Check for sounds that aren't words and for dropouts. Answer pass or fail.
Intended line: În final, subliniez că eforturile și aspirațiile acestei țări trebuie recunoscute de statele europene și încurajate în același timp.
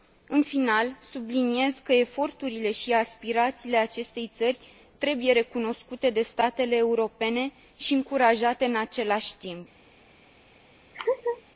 fail